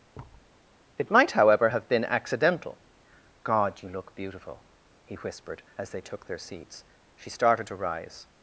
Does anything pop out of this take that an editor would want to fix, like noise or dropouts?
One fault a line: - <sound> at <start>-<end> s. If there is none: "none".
- thud at 0.1-0.5 s